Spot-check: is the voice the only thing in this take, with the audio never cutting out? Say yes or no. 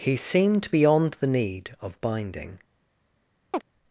no